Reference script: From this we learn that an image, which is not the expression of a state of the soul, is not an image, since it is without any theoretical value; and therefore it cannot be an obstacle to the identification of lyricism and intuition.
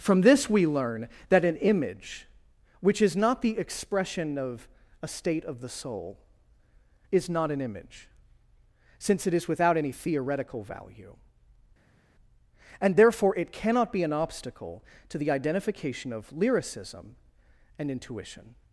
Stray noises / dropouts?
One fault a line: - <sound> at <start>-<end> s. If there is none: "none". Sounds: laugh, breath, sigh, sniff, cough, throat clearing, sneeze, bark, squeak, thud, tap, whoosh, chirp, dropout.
none